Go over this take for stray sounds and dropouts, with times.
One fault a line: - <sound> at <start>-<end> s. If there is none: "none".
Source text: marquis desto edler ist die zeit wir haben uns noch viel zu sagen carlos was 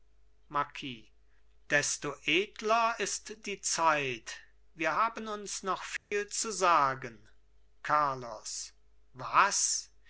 - dropout at 6.0-6.1 s